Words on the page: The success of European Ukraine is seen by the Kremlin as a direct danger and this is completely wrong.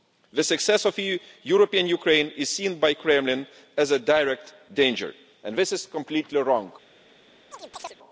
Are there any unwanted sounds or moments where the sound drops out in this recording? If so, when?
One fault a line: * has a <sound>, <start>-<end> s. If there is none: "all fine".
* has a chirp, 7.5-8.0 s